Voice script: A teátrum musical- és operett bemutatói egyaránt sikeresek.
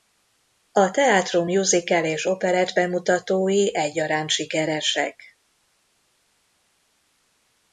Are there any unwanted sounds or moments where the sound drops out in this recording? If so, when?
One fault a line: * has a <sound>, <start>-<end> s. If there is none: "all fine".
all fine